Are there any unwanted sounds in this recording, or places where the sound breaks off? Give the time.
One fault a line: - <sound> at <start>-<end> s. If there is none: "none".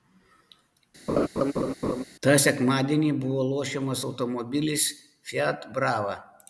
- laugh at 1.1-2.0 s